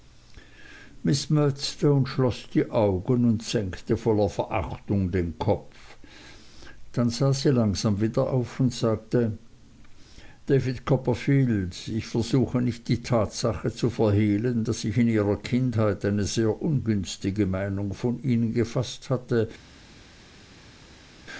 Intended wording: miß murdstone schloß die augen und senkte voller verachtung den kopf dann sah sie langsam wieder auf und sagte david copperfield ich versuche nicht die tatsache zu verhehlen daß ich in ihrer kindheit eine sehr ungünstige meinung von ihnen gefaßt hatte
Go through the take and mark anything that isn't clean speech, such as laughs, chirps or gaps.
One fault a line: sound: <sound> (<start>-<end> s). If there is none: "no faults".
no faults